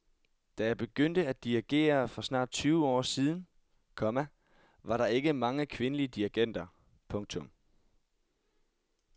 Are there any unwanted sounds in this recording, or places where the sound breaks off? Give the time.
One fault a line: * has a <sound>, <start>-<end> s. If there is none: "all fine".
all fine